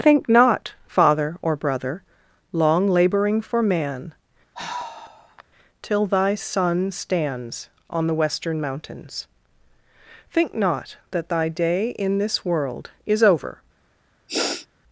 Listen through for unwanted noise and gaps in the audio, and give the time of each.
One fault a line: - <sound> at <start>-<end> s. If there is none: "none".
- sigh at 4.5-5.4 s
- sniff at 14.3-14.7 s